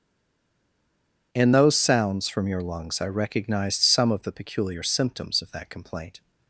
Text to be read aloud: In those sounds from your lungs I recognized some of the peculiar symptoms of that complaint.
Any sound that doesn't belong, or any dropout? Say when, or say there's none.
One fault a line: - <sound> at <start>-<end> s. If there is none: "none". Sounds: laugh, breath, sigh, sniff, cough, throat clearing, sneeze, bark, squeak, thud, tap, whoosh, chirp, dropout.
none